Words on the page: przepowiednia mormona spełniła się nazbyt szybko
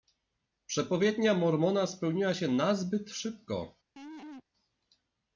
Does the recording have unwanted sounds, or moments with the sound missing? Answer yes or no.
yes